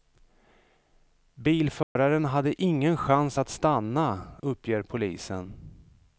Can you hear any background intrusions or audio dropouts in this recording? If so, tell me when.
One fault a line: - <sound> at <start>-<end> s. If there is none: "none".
- dropout at 1.8-2.0 s